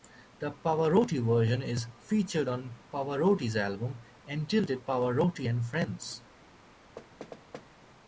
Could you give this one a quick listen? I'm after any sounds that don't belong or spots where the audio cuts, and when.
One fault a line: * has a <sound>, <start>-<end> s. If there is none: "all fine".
* has a thud, 7.0-7.7 s